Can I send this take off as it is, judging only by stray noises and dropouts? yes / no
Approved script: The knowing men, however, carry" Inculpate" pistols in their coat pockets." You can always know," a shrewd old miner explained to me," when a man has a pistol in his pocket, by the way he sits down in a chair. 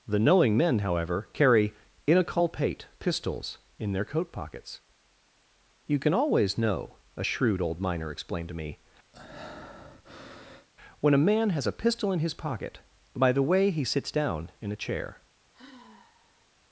no